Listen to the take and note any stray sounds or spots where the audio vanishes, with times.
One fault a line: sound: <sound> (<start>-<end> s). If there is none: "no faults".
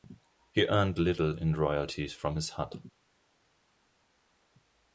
no faults